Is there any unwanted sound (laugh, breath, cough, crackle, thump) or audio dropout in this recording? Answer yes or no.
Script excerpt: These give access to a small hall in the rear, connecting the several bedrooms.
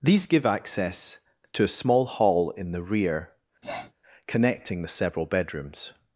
yes